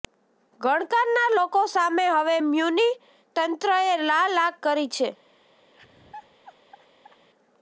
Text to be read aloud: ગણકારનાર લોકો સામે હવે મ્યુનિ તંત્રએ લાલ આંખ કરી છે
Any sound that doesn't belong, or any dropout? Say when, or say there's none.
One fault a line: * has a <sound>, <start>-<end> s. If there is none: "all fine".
* has a laugh, 5.7-7.3 s